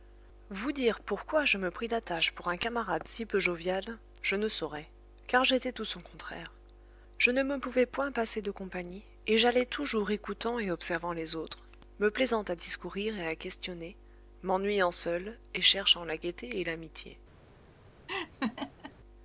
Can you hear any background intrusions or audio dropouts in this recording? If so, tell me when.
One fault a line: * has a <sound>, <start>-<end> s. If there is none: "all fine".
* has a laugh, 18.1-18.9 s